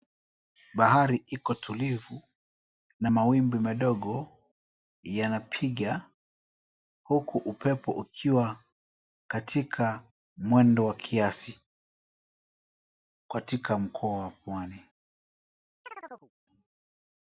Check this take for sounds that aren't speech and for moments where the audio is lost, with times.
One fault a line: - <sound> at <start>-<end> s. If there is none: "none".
- chirp at 15.8-16.3 s